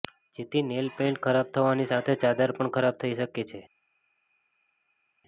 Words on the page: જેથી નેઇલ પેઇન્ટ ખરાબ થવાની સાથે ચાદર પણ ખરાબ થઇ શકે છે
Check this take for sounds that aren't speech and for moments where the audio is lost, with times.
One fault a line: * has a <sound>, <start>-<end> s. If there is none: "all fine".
all fine